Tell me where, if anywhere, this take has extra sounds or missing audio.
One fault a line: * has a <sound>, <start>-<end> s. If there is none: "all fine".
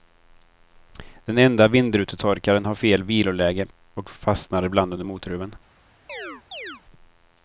* has a chirp, 6.1-6.8 s